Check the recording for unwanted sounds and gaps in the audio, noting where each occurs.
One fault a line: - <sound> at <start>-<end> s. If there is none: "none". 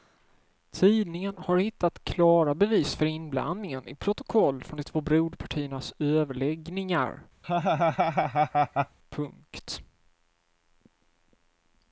- laugh at 7.4-9.0 s